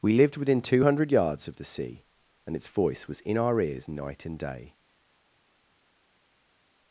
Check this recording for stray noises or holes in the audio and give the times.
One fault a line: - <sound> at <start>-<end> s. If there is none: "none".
none